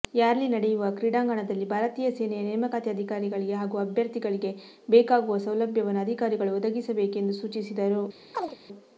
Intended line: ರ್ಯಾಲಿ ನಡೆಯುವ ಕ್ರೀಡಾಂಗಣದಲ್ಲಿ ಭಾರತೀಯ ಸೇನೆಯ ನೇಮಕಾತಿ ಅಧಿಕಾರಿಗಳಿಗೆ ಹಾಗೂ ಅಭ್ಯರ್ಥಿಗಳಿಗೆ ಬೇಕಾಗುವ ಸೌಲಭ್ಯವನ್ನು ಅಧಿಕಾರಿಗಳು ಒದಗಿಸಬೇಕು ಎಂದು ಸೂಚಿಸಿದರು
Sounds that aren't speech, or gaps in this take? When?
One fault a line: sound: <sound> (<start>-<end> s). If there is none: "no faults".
sound: chirp (8.3-8.6 s)